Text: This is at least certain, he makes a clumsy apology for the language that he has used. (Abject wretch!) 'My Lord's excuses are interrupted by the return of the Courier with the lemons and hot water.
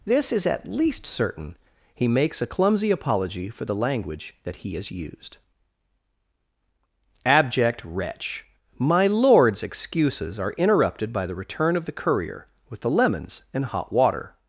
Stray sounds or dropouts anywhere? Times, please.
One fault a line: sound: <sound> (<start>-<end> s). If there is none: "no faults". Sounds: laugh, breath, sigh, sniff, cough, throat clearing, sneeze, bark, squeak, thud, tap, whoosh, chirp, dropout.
no faults